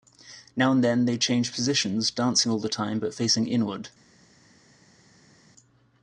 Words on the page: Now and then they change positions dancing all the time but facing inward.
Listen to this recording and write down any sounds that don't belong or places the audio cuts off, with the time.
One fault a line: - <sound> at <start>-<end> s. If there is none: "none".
none